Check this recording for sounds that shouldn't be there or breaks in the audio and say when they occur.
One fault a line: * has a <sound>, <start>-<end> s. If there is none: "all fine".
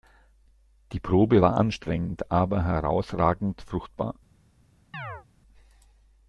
* has a chirp, 4.9-5.3 s